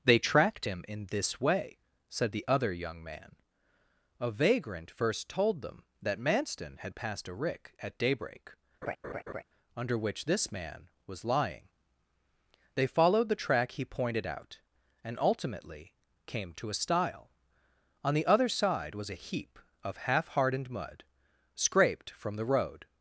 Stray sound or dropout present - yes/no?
yes